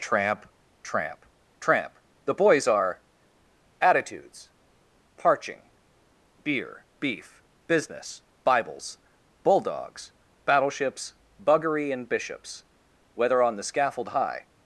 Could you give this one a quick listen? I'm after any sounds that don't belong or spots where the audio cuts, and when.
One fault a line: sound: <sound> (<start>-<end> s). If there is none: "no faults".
no faults